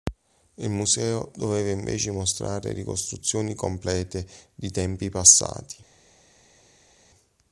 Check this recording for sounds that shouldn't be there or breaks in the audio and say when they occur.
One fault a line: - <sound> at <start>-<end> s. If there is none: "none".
none